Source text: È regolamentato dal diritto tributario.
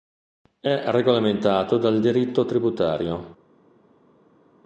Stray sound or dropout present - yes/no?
no